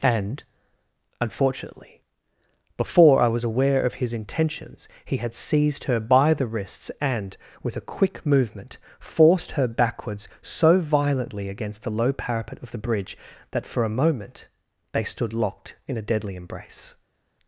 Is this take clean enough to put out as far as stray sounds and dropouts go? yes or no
yes